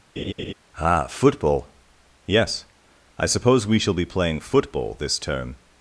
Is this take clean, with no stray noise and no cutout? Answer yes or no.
no